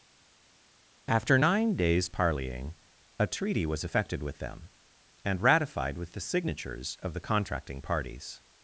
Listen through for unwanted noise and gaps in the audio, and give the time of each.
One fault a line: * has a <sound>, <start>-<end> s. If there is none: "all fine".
all fine